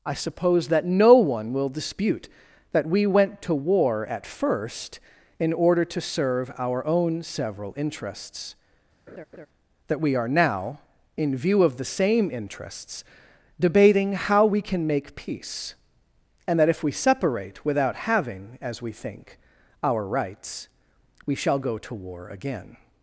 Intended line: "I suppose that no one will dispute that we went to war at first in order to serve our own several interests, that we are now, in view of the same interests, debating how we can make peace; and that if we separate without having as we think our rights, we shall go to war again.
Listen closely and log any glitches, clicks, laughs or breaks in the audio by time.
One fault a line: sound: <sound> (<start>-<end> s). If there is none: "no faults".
sound: laugh (9.1-9.5 s)